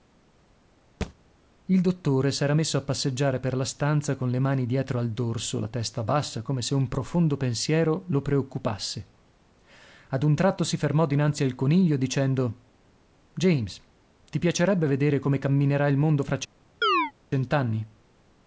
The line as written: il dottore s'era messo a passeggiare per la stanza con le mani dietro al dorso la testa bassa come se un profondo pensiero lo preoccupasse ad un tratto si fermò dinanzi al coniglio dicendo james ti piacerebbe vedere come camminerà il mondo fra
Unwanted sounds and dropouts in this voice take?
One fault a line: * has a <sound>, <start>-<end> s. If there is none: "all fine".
* has a thud, 1.0-1.1 s
* has a chirp, 16.8-17.1 s